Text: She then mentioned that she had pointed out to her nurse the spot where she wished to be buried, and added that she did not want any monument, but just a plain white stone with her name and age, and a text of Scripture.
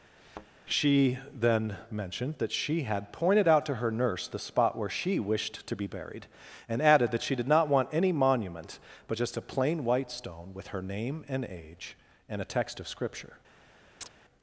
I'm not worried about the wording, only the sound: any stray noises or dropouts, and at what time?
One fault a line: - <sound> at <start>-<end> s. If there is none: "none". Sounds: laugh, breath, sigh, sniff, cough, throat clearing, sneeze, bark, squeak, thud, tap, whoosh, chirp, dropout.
- thud at 0.2-0.5 s
- chirp at 14.0-14.1 s